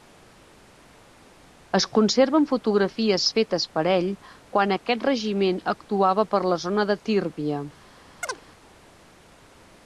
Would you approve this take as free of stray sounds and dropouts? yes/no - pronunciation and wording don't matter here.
no